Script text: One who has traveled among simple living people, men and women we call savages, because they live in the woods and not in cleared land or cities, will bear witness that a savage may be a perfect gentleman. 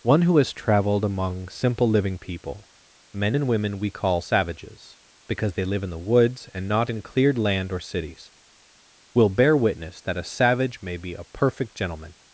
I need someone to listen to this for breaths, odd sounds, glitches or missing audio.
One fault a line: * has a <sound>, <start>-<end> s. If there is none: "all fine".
all fine